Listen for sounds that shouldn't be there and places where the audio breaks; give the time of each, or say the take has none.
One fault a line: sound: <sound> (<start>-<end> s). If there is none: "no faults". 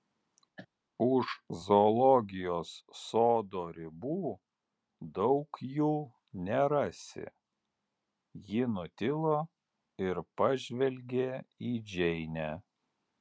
sound: cough (0.6-0.7 s)